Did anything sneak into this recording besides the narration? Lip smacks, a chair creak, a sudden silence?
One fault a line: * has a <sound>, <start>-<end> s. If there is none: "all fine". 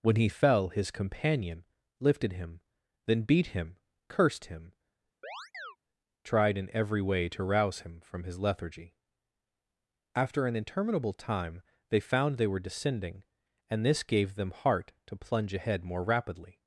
* has a chirp, 5.2-5.8 s